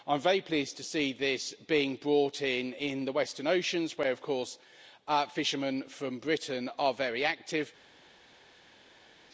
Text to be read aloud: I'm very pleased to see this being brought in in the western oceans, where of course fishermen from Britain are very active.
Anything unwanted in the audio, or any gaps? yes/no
no